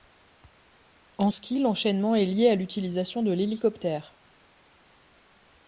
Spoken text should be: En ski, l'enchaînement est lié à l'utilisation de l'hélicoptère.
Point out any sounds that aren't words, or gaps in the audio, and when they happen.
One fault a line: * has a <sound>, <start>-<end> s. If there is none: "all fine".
all fine